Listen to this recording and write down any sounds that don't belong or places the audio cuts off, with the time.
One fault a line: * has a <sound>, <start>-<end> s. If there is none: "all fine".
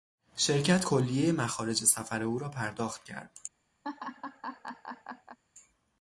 * has a laugh, 3.8-5.4 s